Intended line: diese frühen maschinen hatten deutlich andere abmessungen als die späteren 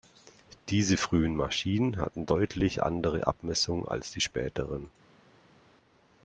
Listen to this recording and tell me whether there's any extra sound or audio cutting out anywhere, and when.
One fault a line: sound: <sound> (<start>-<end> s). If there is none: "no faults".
no faults